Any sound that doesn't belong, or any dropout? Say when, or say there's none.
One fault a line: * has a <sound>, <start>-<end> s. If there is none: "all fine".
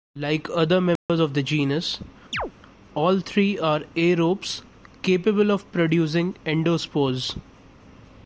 * has a dropout, 1.0-1.1 s
* has a chirp, 2.3-2.5 s